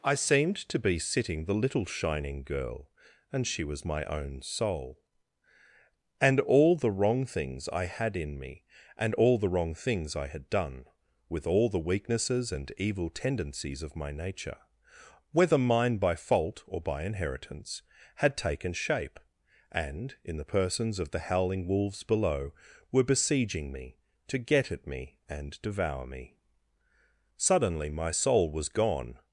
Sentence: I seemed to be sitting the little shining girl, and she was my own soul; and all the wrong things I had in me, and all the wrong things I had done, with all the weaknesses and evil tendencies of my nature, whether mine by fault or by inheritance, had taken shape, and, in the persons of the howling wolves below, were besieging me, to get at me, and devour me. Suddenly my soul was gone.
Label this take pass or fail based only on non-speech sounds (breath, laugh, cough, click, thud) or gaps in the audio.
pass